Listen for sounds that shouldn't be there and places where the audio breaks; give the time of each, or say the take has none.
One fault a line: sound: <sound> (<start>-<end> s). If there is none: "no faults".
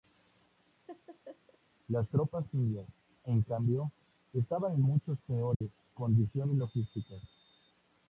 sound: laugh (0.9-1.6 s)
sound: dropout (5.5-5.6 s)